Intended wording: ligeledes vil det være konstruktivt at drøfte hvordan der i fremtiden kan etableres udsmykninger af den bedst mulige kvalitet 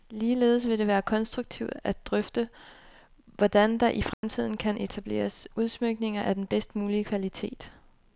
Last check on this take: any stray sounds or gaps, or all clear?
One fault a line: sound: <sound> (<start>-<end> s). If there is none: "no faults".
sound: dropout (4.1-4.2 s)